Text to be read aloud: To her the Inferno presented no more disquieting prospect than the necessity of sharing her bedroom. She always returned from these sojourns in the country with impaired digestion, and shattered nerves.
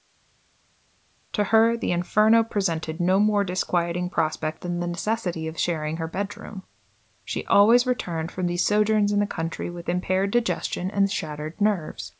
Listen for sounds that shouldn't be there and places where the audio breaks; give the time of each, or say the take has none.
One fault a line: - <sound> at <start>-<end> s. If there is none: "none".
none